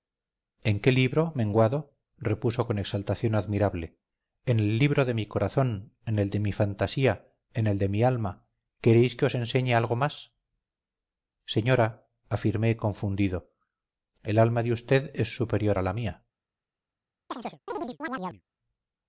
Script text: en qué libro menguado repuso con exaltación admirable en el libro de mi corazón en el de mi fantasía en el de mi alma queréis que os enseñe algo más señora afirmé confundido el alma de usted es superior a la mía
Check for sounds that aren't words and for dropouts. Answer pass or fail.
fail